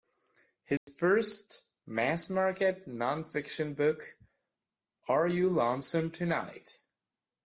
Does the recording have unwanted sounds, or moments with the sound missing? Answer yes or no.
yes